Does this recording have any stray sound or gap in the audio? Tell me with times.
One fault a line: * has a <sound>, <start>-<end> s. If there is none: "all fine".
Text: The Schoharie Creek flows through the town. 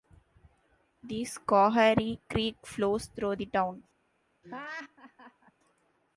* has a laugh, 4.4-5.5 s